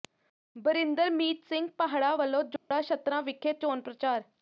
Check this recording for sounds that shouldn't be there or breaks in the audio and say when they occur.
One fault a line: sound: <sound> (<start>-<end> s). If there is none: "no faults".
sound: dropout (2.6-2.7 s)